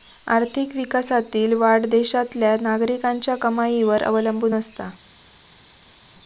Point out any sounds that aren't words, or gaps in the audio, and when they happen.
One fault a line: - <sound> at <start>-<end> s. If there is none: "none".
none